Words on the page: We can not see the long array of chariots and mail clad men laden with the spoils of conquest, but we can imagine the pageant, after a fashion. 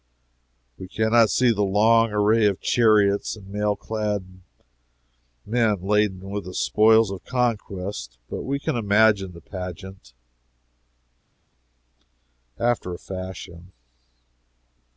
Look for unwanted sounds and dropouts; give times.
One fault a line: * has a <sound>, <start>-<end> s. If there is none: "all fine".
all fine